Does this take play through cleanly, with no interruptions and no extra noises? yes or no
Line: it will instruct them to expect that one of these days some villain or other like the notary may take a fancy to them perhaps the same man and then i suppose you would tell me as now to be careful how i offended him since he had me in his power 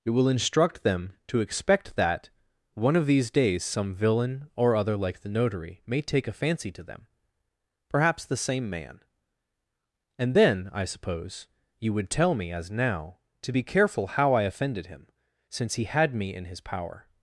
yes